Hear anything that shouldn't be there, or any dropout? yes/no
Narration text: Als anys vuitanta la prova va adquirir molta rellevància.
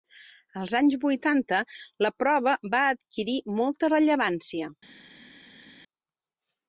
no